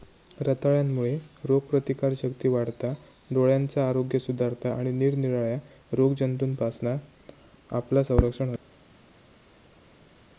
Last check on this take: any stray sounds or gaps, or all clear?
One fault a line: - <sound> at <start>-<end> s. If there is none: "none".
none